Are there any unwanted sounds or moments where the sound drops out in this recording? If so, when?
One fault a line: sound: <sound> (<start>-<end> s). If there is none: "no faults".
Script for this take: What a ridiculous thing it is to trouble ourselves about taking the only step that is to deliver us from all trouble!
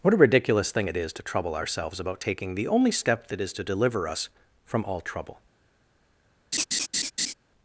sound: laugh (6.5-7.3 s)